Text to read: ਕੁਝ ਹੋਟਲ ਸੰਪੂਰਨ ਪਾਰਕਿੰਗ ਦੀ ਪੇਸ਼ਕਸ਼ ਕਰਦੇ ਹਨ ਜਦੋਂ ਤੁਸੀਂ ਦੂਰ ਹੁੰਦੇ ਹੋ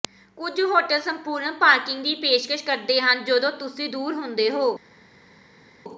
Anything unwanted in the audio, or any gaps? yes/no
no